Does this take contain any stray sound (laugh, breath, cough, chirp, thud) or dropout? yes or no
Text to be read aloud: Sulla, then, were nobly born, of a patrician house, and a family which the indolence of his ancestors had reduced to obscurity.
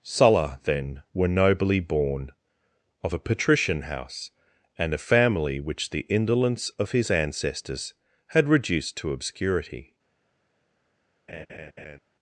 yes